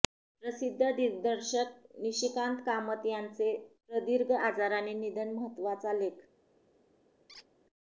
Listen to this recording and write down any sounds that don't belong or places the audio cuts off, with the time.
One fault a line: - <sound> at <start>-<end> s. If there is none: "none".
- squeak at 7.3-7.5 s